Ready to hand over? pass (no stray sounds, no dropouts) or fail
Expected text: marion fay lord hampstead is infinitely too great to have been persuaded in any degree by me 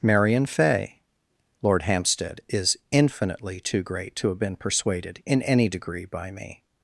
pass